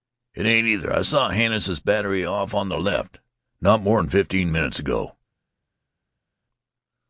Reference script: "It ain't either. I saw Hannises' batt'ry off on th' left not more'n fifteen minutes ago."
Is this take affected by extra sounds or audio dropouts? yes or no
no